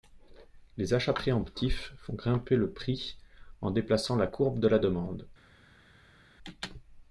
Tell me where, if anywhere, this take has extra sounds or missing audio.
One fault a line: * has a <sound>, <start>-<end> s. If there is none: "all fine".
all fine